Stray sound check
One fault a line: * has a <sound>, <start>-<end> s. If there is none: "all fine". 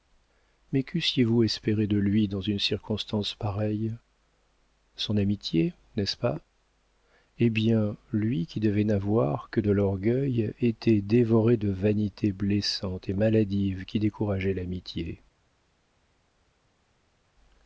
all fine